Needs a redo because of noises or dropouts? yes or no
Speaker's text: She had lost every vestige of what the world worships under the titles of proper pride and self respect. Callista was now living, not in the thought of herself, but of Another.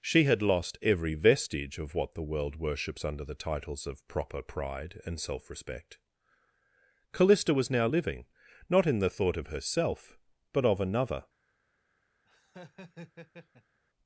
yes